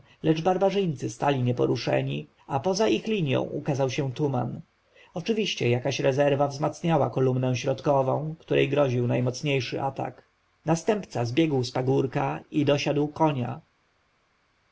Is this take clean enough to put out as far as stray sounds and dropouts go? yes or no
yes